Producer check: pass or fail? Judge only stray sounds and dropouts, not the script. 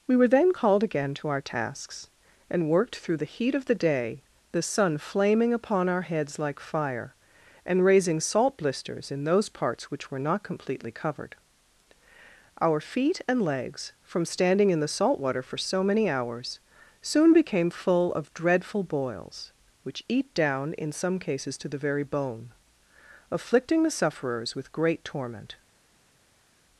pass